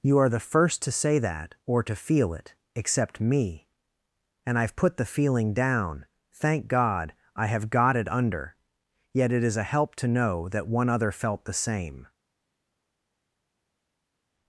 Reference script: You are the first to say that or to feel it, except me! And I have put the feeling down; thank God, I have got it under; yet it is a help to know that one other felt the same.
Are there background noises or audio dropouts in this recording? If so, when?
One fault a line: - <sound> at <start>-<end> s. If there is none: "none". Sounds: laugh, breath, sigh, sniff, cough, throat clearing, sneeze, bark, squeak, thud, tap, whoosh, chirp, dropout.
none